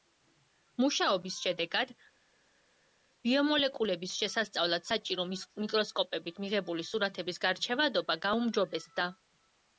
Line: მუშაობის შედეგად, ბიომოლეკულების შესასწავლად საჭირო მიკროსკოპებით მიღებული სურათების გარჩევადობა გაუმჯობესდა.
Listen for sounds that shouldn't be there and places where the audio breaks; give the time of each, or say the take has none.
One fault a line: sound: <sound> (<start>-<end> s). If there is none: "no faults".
no faults